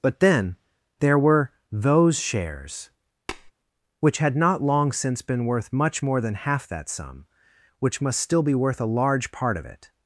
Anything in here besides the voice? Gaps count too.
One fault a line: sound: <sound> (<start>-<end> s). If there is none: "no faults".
sound: tap (3.3-3.5 s)